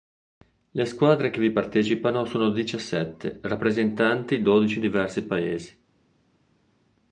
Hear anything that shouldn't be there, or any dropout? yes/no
no